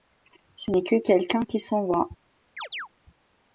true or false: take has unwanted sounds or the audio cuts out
true